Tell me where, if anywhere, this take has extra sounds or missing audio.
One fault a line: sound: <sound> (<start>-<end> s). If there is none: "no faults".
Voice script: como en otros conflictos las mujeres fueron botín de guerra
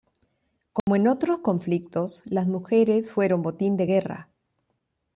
sound: dropout (0.8-0.9 s)